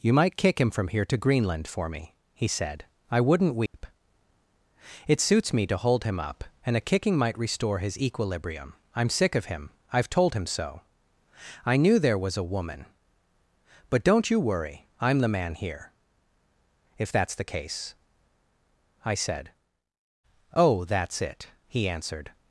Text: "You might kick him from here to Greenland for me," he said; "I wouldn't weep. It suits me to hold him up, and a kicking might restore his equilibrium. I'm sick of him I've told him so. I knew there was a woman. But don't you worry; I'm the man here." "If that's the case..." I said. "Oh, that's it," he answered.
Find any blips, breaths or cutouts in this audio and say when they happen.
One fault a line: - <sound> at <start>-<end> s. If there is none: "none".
- dropout at 3.7-3.7 s